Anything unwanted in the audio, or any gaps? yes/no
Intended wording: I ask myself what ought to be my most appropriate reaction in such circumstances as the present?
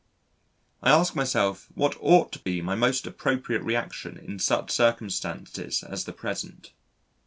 yes